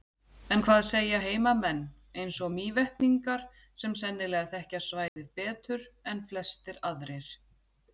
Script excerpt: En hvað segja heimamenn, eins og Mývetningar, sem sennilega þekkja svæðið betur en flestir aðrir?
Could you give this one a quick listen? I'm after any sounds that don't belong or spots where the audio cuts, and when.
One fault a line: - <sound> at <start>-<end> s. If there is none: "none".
- dropout at 5.1-5.2 s